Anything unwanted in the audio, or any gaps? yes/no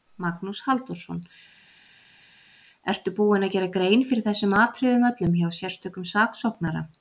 no